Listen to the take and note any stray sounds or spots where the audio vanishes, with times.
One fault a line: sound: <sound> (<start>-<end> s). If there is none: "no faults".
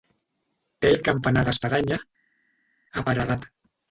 no faults